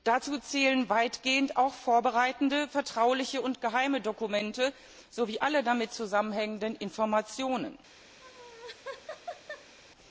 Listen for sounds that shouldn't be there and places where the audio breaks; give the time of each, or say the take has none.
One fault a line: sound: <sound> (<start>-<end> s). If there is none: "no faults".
sound: laugh (8.2-9.7 s)